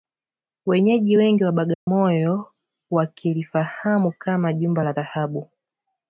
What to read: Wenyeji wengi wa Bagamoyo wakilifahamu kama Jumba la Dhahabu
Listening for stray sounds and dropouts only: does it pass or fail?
fail